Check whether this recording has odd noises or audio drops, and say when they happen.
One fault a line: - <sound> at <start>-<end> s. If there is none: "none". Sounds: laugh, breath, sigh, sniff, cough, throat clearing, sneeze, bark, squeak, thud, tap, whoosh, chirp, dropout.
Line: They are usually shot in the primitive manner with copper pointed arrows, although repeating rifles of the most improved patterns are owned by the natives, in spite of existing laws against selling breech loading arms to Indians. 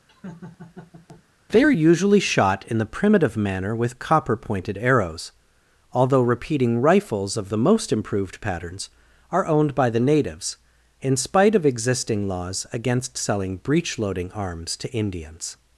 - laugh at 0.1-1.2 s